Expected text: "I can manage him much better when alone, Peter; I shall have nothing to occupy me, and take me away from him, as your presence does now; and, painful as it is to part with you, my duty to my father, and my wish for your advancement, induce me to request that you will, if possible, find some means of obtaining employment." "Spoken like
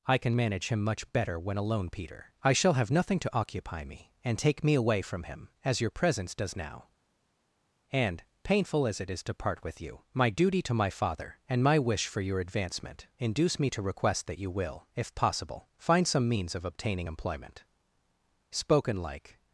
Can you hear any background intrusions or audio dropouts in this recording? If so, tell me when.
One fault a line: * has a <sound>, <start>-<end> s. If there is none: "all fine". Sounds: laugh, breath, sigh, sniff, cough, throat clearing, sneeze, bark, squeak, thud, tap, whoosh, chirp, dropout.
all fine